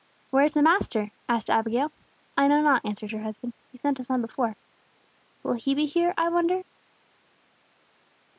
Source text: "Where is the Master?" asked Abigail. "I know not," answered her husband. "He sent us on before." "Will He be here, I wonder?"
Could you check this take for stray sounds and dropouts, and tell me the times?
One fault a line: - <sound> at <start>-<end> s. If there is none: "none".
none